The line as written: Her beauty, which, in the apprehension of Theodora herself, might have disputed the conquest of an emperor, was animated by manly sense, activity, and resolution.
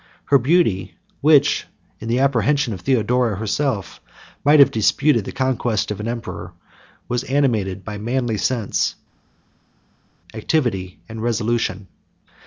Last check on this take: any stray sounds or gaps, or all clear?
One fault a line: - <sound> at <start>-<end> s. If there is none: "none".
none